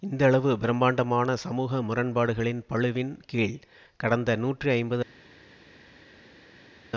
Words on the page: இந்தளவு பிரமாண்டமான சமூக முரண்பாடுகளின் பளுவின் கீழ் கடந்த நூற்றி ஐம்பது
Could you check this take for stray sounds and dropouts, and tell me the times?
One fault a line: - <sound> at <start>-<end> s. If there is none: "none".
none